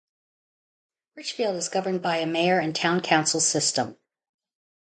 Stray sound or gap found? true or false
false